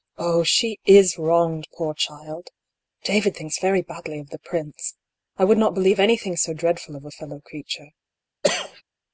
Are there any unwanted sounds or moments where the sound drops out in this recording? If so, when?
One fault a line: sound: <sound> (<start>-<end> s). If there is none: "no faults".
sound: cough (8.4-8.8 s)